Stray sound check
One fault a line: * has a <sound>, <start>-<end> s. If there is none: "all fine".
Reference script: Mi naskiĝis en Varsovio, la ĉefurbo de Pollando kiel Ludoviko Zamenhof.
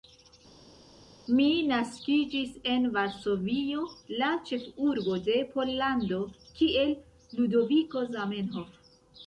all fine